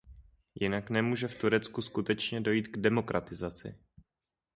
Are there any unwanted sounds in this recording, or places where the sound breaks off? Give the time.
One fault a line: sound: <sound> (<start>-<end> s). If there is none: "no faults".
no faults